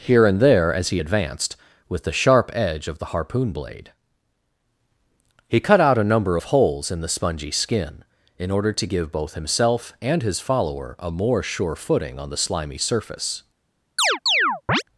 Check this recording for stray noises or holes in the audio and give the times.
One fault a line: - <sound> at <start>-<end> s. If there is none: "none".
- chirp at 14.0-14.8 s